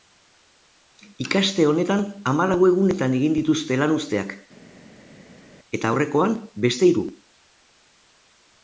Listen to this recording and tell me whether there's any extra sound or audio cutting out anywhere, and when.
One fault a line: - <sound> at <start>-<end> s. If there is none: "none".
none